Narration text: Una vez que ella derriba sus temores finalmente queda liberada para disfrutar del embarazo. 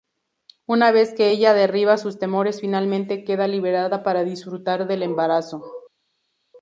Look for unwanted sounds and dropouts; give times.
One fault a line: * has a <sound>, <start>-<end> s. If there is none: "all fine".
all fine